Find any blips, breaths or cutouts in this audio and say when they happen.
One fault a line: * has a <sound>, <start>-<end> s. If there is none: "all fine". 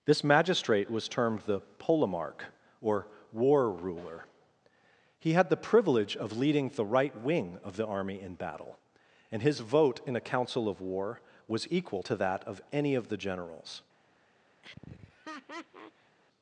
* has a laugh, 14.6-16.2 s